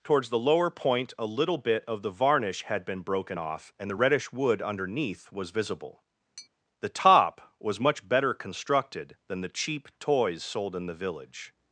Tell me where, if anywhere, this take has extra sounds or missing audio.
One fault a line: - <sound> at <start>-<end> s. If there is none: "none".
- tap at 6.4-6.5 s